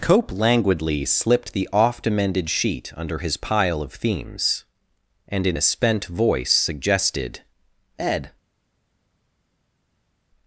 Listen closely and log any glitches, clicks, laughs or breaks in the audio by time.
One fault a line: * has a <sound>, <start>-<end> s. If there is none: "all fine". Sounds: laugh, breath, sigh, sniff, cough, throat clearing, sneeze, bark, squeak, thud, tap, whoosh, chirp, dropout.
all fine